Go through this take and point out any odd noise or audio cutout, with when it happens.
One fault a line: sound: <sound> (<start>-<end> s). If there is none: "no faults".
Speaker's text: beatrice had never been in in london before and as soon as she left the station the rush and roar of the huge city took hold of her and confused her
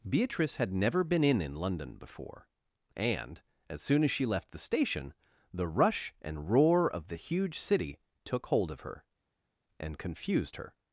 no faults